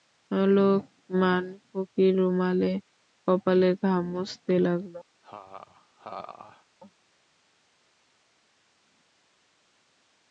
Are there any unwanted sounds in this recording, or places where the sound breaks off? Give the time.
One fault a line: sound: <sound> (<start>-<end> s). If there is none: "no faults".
sound: laugh (5.2-6.7 s)